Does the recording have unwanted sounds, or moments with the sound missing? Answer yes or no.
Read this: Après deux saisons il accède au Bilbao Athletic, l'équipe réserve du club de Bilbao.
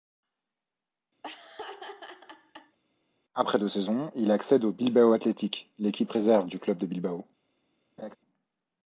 yes